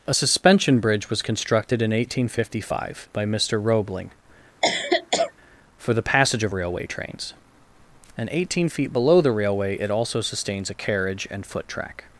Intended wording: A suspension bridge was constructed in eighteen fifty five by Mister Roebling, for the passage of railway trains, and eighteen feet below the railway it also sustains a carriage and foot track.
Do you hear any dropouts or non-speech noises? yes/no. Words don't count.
yes